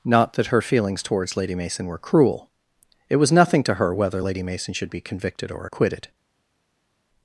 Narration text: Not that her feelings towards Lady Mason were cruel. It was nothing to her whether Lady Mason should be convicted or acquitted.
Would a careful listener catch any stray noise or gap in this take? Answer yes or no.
no